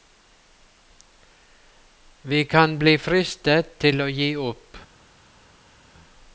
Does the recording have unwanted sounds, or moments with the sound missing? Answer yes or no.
no